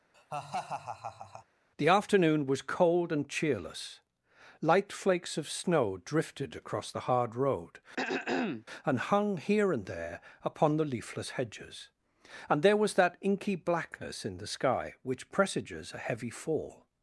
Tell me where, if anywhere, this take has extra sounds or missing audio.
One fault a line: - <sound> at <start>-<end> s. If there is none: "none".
- laugh at 0.1-1.5 s
- throat clearing at 8.0-8.7 s